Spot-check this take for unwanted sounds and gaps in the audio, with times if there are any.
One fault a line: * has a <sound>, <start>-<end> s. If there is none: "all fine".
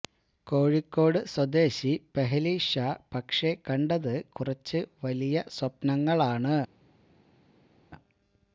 all fine